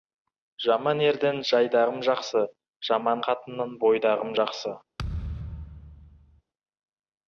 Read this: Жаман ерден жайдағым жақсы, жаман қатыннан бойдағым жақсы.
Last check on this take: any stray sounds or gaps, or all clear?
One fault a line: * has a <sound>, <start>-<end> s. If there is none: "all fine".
* has a thud, 5.0-6.4 s